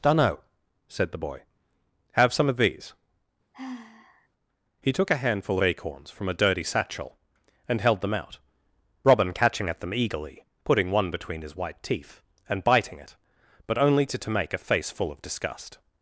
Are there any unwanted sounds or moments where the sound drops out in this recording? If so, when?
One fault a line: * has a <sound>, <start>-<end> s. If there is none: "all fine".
* has a sigh, 3.5-4.3 s